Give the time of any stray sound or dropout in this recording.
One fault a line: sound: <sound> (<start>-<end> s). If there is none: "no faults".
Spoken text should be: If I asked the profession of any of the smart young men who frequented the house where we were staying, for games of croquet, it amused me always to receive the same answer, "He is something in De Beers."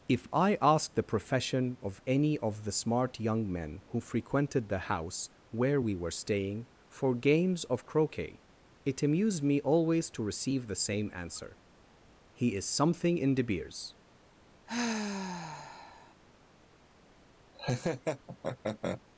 sound: sigh (14.7-16.1 s)
sound: laugh (17.5-19.0 s)